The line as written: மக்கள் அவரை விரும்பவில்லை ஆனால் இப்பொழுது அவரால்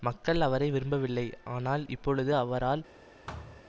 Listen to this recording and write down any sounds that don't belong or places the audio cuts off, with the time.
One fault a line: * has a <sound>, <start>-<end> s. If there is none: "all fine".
* has a thud, 3.3-3.6 s